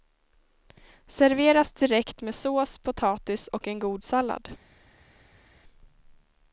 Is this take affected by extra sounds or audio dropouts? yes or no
no